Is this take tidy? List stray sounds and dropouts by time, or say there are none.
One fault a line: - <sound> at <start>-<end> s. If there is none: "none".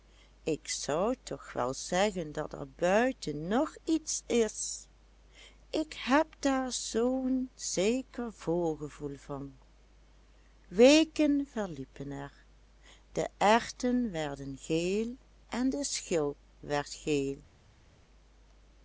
none